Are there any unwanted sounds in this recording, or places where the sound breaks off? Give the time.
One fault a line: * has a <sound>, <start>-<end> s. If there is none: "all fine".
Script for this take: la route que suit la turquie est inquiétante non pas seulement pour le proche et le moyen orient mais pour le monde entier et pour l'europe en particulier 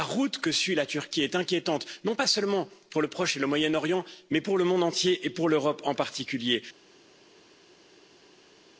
all fine